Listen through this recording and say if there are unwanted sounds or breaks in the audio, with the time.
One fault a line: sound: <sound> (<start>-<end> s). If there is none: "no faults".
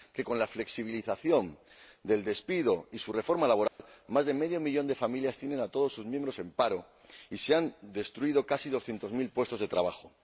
sound: dropout (3.7-3.8 s)